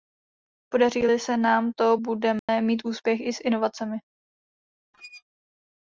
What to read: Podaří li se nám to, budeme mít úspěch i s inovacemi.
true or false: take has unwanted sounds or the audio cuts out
true